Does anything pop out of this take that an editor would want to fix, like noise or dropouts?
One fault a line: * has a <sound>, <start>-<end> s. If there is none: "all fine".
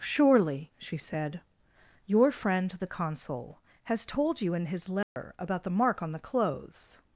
* has a dropout, 5.0-5.2 s